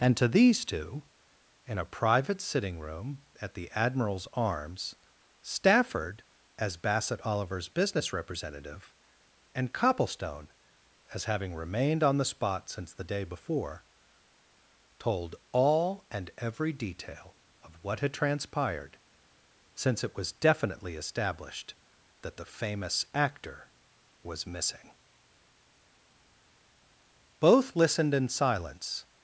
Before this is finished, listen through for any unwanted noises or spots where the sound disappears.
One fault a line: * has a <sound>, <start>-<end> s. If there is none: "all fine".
all fine